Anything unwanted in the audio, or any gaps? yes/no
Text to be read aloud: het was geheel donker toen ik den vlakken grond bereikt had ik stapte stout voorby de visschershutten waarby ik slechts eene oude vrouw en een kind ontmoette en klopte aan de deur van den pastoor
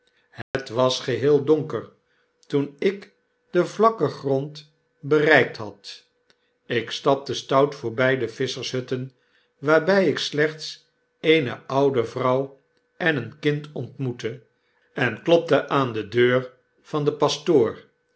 yes